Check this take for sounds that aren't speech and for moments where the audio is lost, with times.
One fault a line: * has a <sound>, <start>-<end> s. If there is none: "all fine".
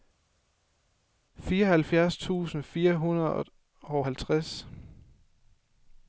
all fine